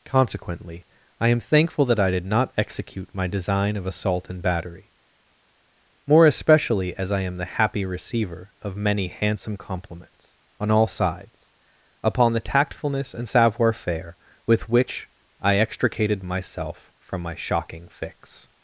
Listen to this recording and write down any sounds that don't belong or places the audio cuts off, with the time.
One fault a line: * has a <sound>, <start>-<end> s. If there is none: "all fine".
all fine